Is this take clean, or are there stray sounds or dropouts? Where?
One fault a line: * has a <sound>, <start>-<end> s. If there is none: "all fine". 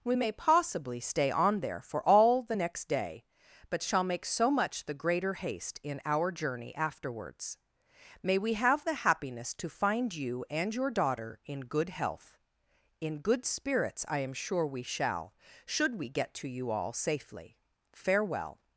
all fine